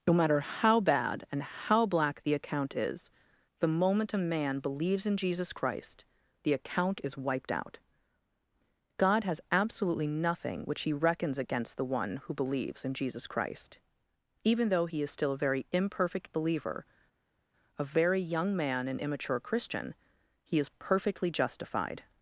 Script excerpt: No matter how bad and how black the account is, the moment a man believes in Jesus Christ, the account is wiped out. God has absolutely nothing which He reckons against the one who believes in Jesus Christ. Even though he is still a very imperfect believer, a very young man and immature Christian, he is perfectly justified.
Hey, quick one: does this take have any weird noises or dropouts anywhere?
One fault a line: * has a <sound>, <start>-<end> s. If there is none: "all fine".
all fine